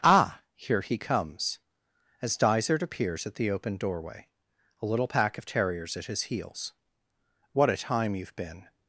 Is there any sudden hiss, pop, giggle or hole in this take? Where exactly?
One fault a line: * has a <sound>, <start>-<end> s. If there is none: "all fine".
all fine